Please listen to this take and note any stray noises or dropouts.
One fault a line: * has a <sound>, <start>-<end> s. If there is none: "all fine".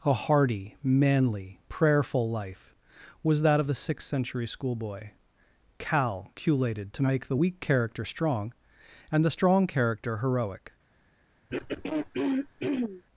* has a throat clearing, 11.5-13.0 s